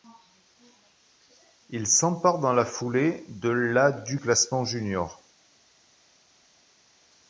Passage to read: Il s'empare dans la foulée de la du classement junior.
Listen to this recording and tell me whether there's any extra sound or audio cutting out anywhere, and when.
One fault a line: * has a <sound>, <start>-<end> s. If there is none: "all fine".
all fine